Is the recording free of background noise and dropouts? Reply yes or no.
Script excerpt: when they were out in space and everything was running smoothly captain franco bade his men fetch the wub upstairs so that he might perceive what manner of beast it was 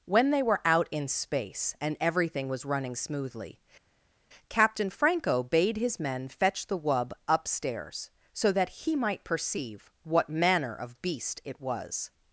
yes